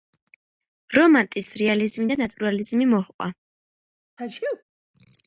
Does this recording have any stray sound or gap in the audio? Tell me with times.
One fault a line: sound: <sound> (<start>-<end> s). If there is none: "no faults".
sound: sneeze (4.2-4.6 s)